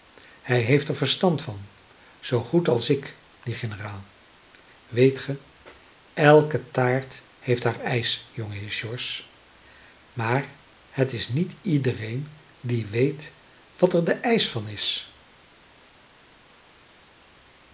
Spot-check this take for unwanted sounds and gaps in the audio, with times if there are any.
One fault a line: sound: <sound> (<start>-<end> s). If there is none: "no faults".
no faults